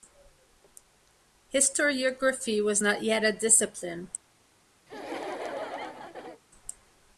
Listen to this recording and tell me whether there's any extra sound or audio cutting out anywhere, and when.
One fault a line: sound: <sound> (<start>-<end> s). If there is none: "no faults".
sound: laugh (4.9-6.4 s)